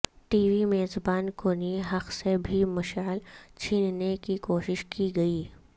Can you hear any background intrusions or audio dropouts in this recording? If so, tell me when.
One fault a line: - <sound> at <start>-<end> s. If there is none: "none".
none